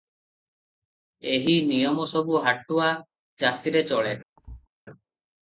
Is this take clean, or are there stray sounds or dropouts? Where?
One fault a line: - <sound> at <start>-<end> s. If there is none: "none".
- thud at 4.4-4.7 s